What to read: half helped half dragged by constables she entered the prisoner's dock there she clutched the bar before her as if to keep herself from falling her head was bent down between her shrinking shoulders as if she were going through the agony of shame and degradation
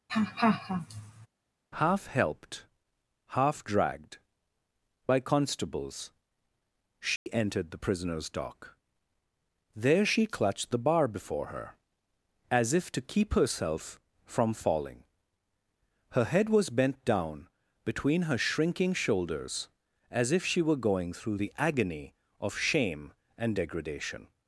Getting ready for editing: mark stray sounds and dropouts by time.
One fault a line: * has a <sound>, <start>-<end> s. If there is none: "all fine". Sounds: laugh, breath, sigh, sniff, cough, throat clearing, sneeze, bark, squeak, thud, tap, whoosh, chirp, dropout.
* has a laugh, 0.1-1.3 s
* has a dropout, 7.2-7.3 s